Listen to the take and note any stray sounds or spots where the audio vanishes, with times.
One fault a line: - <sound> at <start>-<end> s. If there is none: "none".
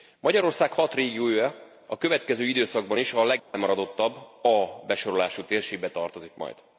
- dropout at 3.4-3.5 s